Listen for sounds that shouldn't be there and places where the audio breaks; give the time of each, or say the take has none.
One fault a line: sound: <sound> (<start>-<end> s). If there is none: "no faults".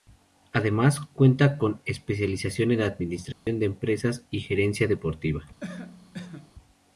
sound: dropout (3.3-3.5 s)
sound: cough (5.6-6.5 s)